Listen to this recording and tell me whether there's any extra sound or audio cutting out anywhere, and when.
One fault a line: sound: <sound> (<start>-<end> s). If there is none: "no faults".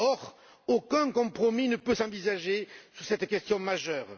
no faults